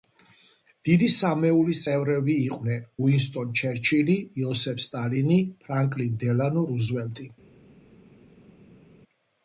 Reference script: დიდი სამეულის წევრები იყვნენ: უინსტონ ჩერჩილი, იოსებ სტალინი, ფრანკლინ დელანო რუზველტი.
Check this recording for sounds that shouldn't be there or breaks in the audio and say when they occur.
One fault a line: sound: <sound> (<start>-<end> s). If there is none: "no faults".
no faults